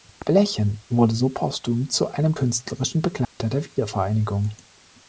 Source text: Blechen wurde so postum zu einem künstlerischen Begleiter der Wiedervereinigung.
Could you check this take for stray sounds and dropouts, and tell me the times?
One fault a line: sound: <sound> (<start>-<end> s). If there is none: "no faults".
sound: dropout (3.2-3.4 s)